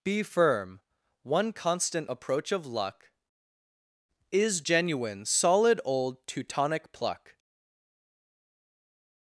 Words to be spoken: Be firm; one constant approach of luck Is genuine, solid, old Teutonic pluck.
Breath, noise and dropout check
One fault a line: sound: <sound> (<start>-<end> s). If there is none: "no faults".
no faults